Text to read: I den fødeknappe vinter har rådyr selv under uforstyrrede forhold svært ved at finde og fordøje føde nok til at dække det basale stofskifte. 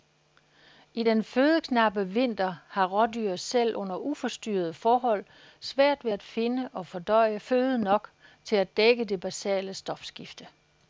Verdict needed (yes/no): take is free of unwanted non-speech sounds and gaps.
yes